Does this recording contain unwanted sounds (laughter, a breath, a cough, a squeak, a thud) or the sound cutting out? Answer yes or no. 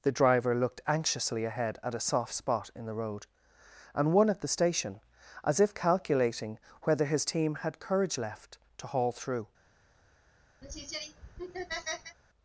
yes